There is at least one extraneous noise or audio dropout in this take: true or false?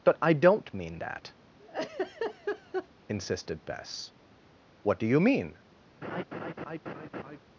true